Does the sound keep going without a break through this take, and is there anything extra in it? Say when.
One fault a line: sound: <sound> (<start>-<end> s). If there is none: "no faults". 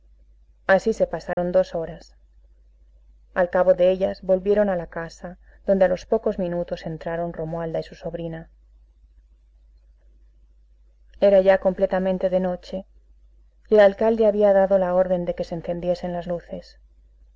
sound: dropout (1.3-1.4 s)